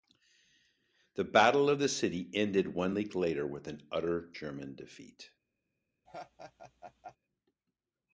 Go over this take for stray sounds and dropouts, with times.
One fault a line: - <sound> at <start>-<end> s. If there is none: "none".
- laugh at 6.1-7.2 s